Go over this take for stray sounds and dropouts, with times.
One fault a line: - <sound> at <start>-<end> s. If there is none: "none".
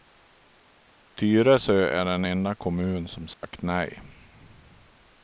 - dropout at 3.3-3.4 s